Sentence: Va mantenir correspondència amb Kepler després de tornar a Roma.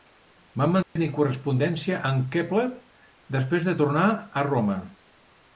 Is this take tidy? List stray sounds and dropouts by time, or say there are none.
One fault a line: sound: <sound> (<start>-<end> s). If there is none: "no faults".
sound: dropout (0.8-1.0 s)